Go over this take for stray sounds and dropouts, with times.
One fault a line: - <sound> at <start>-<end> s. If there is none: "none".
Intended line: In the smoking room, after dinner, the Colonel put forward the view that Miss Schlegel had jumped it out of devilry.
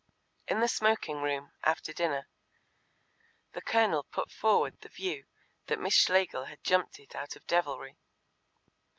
none